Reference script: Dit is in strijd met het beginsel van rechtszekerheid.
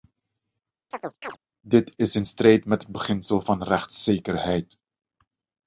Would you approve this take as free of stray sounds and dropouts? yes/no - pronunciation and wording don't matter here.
no